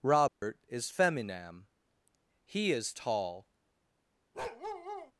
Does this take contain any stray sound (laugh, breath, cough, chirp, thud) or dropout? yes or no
yes